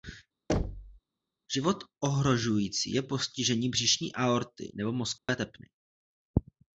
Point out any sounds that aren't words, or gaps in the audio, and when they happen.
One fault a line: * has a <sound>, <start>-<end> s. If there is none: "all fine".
* has a thud, 0.5-1.0 s
* has a dropout, 5.2-5.3 s